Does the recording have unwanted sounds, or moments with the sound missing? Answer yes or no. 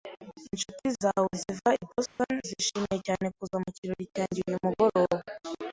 yes